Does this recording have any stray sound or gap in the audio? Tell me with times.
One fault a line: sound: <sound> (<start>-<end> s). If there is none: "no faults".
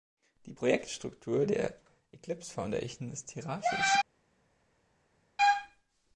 no faults